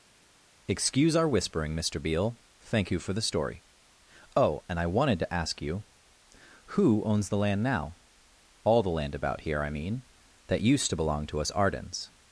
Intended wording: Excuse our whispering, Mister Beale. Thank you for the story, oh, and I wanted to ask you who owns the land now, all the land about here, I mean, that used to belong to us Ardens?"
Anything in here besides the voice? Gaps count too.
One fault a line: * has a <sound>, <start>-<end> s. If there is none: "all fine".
all fine